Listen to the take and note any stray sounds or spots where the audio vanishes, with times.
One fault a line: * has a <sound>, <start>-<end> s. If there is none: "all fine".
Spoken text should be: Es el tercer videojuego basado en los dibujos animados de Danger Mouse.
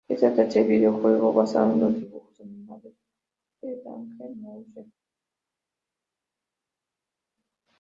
all fine